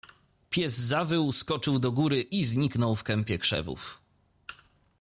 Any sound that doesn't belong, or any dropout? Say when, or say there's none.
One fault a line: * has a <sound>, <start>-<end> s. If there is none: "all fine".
all fine